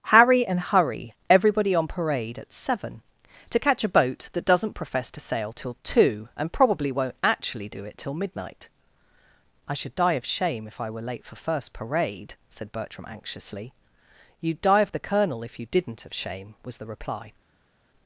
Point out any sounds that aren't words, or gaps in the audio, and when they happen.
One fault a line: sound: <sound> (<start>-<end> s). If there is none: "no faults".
no faults